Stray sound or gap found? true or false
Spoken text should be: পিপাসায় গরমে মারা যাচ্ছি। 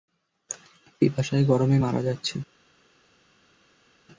false